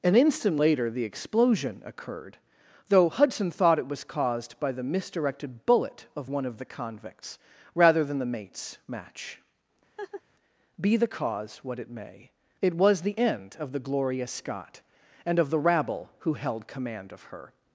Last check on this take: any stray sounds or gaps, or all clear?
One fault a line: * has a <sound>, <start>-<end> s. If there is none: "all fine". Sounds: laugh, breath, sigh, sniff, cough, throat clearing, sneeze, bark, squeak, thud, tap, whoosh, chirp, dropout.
* has a laugh, 10.0-10.2 s